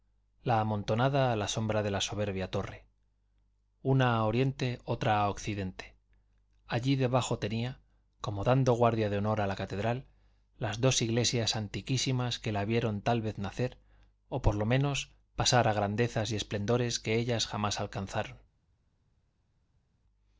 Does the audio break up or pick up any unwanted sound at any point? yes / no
no